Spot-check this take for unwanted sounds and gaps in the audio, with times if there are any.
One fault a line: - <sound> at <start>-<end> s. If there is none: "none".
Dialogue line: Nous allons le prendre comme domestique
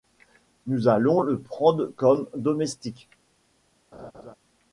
- laugh at 3.9-4.3 s